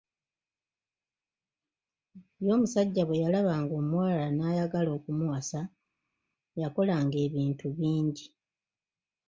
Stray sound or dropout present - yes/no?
no